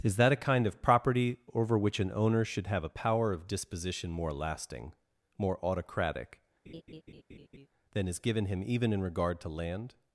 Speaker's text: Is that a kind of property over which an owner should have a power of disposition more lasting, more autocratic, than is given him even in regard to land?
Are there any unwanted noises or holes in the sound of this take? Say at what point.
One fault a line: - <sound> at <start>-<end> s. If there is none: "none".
- laugh at 6.7-7.7 s